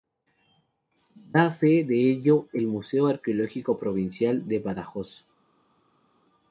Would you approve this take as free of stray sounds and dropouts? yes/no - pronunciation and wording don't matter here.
yes